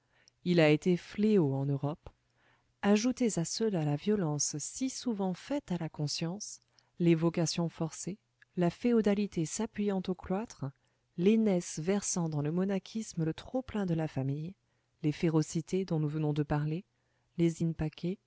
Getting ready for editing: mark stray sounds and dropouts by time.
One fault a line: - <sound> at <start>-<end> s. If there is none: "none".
none